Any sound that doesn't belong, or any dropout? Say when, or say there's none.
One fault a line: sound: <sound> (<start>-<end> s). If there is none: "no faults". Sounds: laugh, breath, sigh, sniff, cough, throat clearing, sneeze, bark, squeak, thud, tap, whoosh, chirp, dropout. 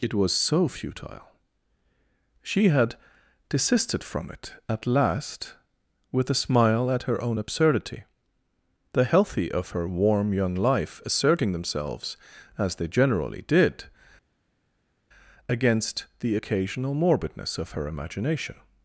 no faults